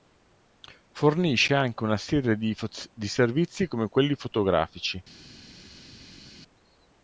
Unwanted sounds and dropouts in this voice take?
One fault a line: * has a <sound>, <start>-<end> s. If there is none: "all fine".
all fine